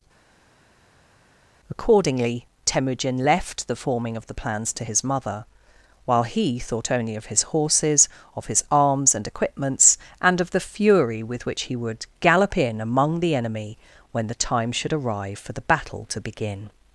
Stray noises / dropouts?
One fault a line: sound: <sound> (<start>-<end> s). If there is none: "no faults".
no faults